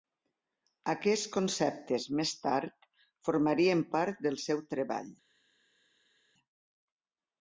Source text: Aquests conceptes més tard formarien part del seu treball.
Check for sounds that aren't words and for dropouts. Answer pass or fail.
pass